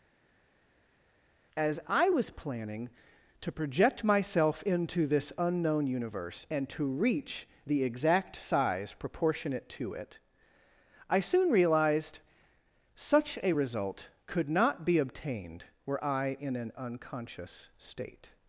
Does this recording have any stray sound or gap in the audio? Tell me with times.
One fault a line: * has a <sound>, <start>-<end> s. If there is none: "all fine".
all fine